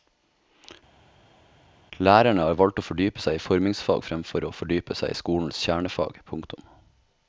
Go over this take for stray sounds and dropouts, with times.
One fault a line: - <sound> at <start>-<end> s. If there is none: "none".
none